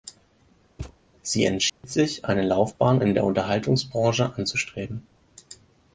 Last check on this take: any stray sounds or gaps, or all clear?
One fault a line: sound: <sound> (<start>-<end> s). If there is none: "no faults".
sound: thud (0.8-1.0 s)
sound: dropout (1.7-1.8 s)